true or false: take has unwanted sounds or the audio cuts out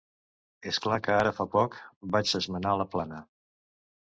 false